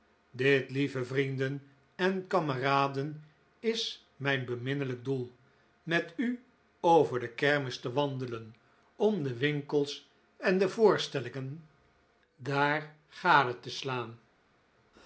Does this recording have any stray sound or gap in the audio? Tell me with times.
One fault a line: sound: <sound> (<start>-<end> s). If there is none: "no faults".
no faults